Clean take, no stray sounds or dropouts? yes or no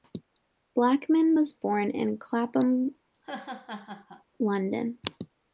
no